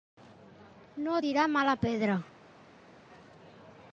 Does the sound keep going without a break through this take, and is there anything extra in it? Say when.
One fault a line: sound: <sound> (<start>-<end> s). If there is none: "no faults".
no faults